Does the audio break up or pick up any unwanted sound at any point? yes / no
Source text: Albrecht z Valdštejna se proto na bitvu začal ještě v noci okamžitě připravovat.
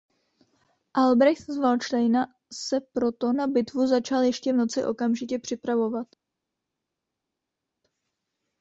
no